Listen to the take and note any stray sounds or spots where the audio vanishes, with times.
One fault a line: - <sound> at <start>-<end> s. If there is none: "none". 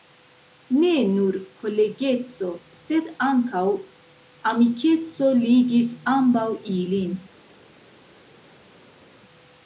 none